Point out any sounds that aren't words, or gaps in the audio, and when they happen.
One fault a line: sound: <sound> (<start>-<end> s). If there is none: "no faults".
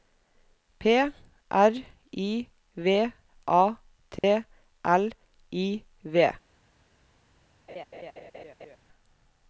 sound: dropout (4.2-4.2 s)
sound: laugh (7.7-8.8 s)